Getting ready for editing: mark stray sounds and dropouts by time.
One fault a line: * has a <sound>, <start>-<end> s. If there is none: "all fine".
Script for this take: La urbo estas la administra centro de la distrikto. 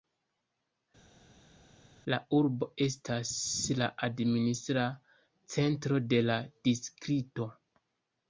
all fine